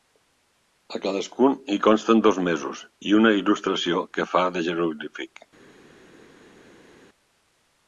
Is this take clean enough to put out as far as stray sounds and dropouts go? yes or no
yes